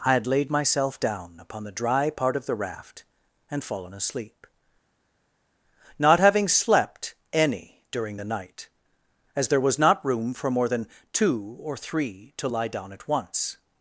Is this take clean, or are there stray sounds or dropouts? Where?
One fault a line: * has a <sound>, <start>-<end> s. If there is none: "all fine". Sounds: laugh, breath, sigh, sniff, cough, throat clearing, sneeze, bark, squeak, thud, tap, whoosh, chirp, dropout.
all fine